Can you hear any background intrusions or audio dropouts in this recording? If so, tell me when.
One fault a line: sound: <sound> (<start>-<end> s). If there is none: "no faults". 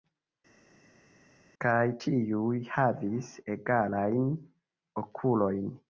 no faults